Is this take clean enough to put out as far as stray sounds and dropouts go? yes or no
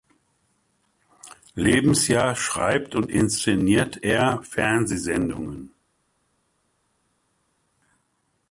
yes